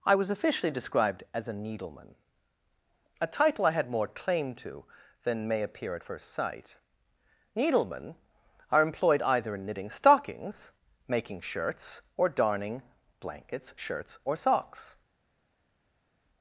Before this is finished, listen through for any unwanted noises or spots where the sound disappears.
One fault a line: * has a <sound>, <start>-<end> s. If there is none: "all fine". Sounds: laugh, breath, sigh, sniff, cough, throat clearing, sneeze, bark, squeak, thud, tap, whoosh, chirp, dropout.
all fine